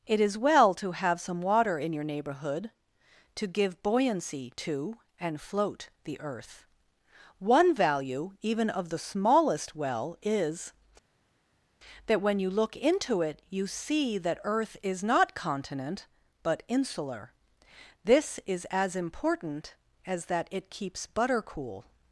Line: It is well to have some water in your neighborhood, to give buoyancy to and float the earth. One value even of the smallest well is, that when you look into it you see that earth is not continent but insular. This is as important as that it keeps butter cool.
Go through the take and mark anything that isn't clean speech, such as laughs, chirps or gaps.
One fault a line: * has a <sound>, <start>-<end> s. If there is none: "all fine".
all fine